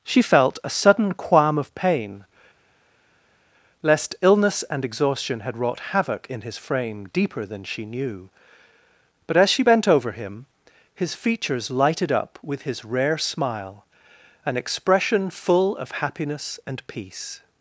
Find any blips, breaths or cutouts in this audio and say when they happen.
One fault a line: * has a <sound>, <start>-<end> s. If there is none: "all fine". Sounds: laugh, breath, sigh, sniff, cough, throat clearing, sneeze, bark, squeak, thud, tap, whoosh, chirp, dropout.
all fine